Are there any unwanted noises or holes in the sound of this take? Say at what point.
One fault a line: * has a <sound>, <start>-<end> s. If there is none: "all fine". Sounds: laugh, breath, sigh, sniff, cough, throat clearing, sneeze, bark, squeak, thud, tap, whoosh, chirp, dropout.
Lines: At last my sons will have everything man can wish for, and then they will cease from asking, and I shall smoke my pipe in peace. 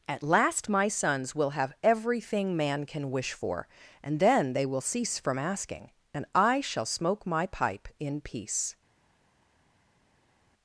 all fine